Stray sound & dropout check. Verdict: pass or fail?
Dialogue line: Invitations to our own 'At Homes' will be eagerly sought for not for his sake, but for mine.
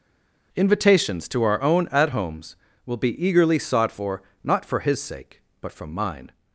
pass